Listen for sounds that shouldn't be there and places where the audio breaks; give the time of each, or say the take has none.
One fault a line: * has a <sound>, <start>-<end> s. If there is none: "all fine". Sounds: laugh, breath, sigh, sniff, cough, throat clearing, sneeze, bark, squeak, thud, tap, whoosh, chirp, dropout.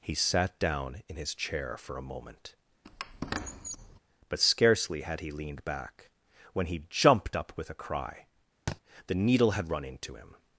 * has a squeak, 2.8-4.0 s
* has a thud, 8.7-8.8 s